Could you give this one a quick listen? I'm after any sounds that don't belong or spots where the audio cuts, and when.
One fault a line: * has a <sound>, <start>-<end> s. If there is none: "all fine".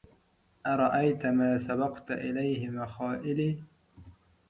all fine